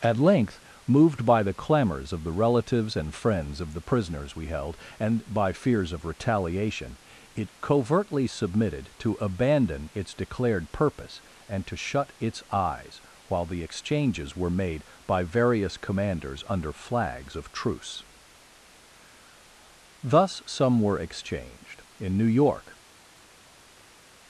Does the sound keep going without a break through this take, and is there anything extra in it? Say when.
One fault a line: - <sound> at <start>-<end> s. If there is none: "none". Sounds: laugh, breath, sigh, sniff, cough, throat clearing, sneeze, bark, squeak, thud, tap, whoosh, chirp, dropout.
none